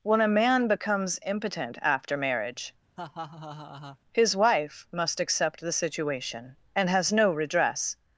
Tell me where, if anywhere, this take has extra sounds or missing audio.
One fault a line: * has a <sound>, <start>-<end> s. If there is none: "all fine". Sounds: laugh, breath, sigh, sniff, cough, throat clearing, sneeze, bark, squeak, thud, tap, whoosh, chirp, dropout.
* has a laugh, 3.0-4.0 s